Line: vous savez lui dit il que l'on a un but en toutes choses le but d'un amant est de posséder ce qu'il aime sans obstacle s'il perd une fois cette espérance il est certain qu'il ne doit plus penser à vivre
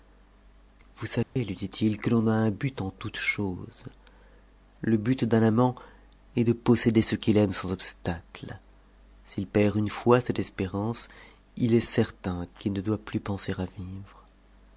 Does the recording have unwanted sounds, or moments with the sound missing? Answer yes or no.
yes